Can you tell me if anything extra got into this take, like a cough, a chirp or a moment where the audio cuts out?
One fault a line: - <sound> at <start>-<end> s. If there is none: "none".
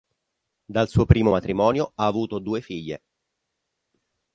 none